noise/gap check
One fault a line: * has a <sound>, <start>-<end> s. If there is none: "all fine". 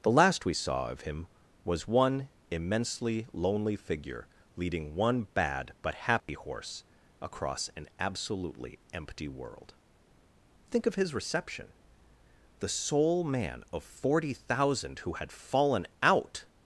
* has a dropout, 6.2-6.3 s